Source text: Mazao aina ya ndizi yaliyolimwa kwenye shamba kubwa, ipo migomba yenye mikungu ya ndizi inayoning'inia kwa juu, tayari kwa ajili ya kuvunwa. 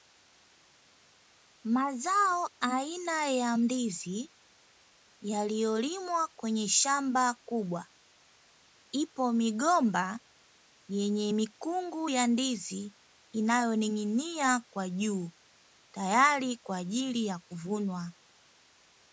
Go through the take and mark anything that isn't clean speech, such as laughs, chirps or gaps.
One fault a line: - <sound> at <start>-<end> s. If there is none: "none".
none